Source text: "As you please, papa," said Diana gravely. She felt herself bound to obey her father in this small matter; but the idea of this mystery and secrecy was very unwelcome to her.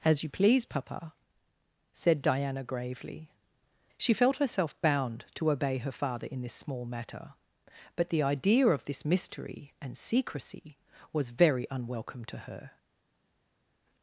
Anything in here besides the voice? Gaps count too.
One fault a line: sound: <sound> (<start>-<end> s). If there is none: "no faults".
no faults